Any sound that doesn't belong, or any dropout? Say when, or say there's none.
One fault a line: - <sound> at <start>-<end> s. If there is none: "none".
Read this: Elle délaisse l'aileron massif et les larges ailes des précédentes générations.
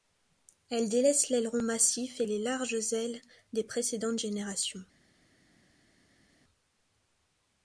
none